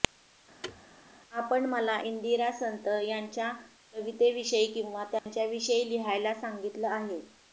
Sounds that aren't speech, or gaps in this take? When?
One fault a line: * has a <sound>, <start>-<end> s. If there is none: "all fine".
* has a thud, 0.6-0.8 s
* has a dropout, 5.2-5.3 s